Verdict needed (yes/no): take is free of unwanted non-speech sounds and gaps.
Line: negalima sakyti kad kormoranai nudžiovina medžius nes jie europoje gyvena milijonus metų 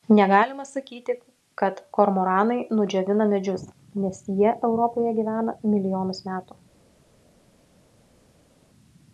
yes